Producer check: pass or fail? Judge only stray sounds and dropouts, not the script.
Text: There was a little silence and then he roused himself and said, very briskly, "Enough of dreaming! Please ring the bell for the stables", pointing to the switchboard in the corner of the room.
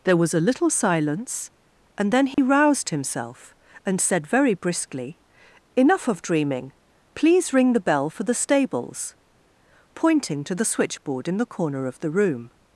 fail